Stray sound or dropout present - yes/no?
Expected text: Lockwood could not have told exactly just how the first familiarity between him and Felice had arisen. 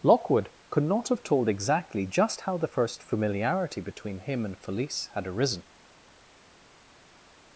no